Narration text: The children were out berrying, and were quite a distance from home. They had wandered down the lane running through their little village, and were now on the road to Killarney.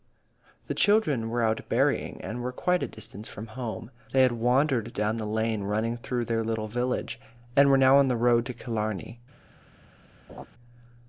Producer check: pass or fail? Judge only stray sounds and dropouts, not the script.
fail